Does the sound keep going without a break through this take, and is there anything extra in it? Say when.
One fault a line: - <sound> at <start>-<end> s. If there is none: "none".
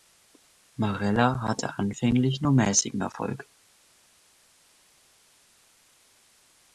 none